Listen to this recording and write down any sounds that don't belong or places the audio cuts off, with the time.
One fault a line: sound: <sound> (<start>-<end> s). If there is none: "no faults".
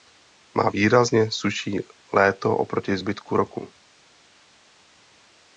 no faults